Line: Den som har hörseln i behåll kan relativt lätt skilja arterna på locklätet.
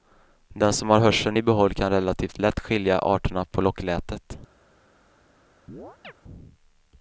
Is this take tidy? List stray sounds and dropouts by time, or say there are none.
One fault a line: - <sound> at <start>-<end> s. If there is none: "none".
- chirp at 5.7-6.1 s